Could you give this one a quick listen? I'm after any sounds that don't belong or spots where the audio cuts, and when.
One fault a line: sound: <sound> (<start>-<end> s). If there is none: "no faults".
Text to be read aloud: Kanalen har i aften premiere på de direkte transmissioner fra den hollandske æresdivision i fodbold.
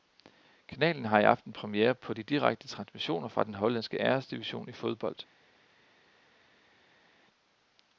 no faults